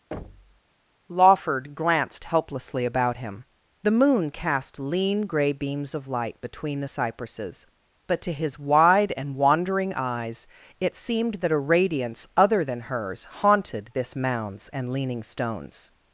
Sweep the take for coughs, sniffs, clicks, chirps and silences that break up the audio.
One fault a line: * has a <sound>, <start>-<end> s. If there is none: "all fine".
* has a thud, 0.1-0.6 s